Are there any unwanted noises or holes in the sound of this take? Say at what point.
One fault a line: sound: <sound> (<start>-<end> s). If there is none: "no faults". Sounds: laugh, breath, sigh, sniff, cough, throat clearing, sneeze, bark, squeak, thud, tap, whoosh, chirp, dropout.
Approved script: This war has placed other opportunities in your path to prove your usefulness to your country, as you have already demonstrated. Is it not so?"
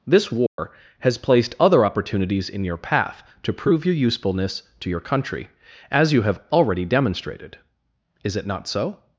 sound: dropout (0.5-0.6 s)